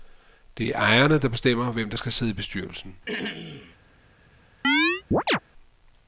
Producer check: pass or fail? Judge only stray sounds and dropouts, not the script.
fail